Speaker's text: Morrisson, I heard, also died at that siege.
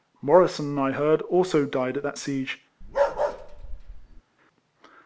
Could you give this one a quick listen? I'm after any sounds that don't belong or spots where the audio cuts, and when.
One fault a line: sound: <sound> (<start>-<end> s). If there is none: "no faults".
sound: bark (2.8-4.2 s)